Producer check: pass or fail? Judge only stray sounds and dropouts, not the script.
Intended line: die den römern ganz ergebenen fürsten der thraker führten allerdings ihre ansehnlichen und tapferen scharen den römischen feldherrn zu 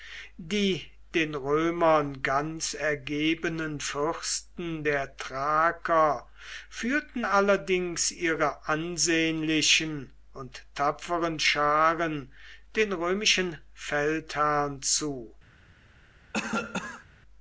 fail